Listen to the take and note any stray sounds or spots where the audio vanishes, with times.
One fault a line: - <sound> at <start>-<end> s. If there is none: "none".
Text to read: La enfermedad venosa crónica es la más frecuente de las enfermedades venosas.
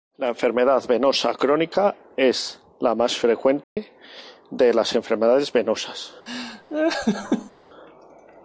- dropout at 3.6-3.8 s
- laugh at 6.3-7.5 s